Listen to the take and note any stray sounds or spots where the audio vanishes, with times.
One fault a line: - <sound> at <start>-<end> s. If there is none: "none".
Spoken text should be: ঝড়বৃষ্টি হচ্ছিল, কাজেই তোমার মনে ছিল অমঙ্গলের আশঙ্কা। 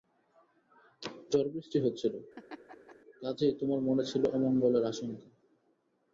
- laugh at 2.3-3.0 s